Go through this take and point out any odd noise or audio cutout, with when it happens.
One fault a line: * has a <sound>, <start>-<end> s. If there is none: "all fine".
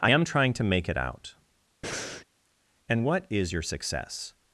* has a breath, 1.8-2.3 s